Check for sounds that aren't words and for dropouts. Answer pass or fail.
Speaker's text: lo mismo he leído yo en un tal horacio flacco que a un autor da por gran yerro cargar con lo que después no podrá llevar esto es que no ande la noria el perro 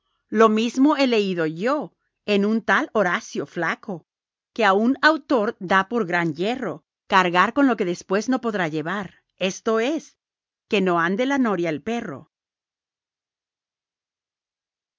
pass